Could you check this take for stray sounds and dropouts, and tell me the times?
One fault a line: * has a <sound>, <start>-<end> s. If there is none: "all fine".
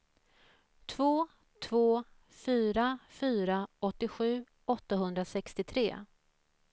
all fine